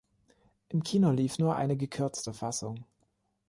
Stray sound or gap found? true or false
false